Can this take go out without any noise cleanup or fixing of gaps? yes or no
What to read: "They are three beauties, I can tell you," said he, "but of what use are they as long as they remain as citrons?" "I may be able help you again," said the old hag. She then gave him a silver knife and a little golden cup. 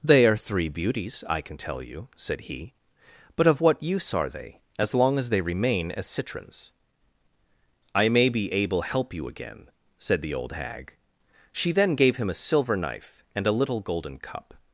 yes